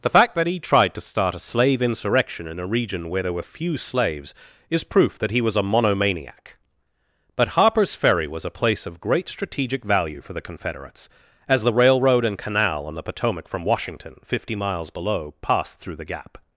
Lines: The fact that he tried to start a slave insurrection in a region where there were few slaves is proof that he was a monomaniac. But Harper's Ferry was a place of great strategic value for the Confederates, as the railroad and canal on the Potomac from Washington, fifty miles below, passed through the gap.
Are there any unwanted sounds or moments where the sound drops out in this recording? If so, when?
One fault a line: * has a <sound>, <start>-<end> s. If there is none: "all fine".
all fine